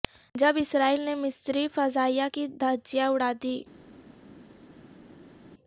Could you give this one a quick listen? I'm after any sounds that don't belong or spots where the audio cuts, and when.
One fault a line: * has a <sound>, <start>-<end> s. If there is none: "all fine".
all fine